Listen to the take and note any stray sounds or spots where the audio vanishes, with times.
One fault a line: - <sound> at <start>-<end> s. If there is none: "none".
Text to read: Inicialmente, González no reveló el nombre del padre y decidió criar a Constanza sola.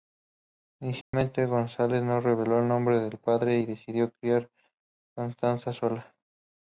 - dropout at 1.0-1.1 s